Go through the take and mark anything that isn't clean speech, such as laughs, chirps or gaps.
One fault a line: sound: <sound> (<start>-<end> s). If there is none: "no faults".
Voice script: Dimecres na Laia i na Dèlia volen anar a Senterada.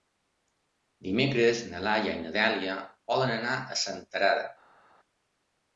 no faults